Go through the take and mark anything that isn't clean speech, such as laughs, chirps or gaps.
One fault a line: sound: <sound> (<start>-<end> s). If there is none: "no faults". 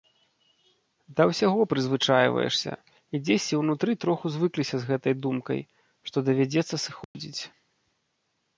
sound: dropout (7.0-7.1 s)